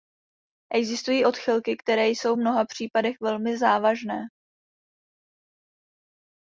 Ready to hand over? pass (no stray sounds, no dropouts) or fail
pass